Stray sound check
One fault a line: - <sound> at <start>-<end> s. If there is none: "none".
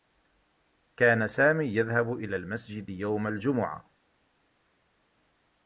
none